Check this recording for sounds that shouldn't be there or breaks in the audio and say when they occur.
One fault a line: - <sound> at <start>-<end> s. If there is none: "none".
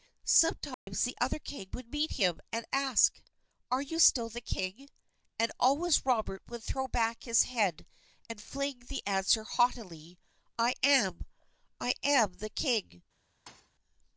- dropout at 0.7-0.9 s
- thud at 13.5-13.7 s